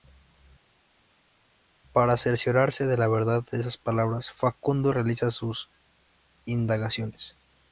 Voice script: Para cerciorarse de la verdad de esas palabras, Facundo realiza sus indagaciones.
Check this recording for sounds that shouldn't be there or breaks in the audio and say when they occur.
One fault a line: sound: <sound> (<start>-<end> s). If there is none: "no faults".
no faults